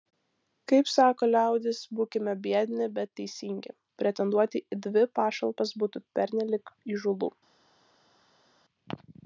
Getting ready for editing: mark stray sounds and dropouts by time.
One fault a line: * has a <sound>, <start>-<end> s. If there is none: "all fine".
all fine